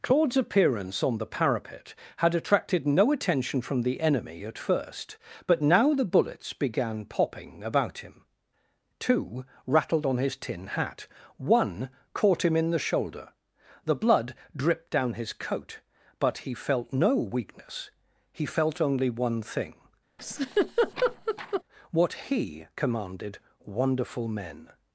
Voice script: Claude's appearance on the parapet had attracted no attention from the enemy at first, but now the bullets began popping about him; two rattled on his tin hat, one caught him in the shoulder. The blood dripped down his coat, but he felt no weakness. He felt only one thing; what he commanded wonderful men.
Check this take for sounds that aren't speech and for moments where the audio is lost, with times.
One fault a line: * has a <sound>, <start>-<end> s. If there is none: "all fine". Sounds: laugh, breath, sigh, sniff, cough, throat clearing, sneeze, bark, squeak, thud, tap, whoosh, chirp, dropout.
* has a laugh, 20.2-21.6 s